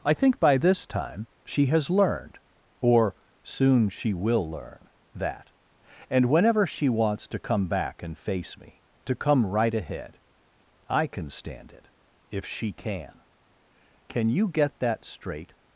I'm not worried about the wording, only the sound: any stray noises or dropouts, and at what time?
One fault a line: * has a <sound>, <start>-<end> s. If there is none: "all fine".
all fine